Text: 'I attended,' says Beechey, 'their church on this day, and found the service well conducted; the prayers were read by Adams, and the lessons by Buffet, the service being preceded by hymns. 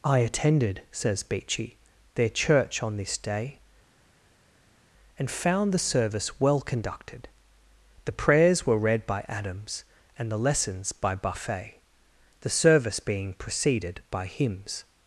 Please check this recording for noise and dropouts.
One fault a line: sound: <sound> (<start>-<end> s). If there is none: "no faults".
no faults